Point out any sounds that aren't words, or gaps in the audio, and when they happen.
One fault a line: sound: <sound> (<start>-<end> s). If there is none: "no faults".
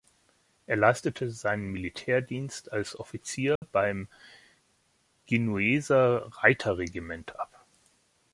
sound: dropout (3.6-3.6 s)